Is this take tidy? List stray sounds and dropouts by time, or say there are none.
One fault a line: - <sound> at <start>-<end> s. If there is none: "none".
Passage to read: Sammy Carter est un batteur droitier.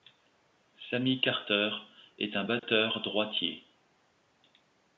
- dropout at 2.6-2.6 s